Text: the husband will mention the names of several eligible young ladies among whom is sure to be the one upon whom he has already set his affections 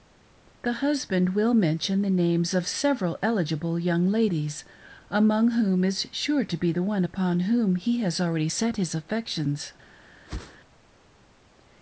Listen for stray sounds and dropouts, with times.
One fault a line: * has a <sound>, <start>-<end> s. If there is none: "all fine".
* has a whoosh, 10.3-10.6 s